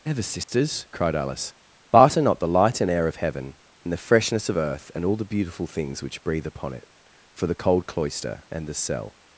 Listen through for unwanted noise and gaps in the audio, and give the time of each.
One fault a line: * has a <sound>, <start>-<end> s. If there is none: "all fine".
* has a dropout, 0.4-0.5 s